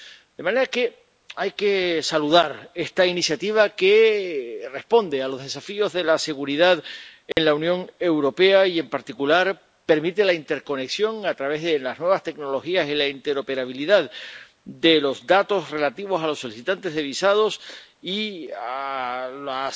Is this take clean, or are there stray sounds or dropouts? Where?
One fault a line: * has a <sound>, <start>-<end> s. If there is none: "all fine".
* has a dropout, 7.3-7.4 s